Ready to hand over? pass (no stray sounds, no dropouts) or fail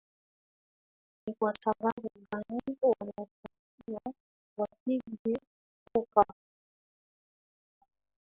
pass